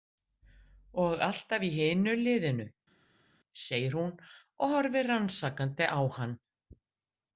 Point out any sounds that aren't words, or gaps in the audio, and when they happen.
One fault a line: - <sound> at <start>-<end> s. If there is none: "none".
none